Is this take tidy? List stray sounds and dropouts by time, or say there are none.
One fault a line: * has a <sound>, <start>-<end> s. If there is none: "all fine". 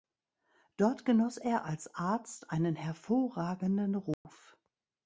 * has a dropout, 4.1-4.2 s